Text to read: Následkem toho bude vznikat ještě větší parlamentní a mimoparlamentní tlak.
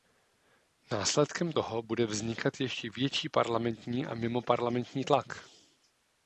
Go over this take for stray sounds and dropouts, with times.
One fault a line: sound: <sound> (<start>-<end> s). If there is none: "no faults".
no faults